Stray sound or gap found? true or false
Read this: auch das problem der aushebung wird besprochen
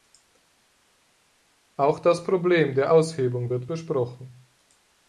false